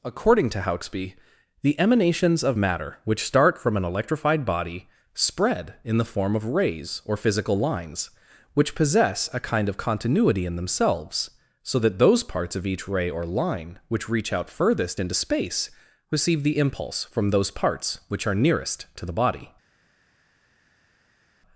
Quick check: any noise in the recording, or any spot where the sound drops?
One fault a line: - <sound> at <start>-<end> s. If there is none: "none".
none